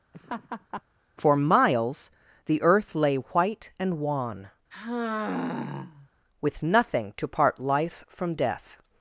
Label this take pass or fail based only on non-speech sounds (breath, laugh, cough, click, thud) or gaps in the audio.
fail